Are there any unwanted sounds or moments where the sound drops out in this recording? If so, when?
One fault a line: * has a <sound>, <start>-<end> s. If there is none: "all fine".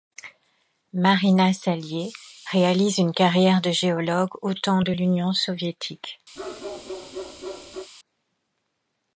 * has a bark, 6.3-7.9 s